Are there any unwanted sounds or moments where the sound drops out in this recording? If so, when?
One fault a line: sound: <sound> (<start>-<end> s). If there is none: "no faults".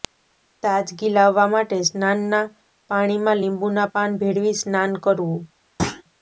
sound: thud (5.8-6.0 s)